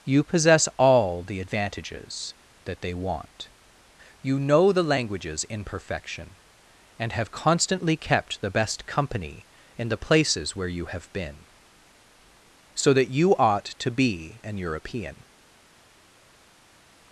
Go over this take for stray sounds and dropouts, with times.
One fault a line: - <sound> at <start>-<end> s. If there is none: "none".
none